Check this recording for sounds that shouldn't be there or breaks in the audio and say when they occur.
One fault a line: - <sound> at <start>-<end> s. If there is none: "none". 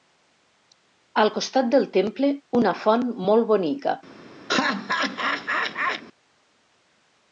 - laugh at 4.5-6.0 s